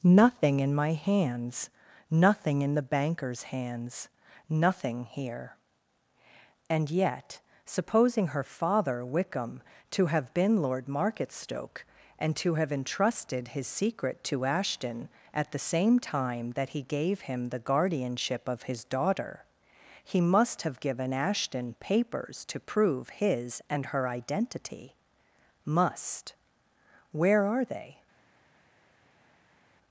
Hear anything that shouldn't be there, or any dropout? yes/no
no